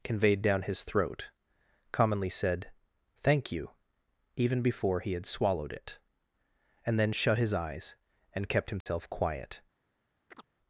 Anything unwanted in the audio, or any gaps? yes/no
yes